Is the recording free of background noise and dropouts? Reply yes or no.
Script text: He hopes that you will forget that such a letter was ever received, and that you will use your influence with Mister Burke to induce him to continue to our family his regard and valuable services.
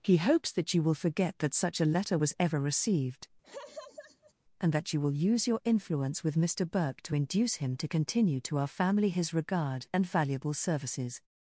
no